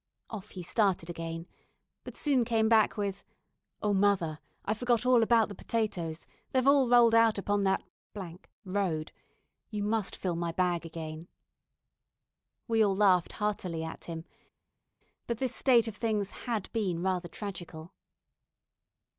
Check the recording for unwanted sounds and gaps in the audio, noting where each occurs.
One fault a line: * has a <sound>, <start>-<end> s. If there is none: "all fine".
all fine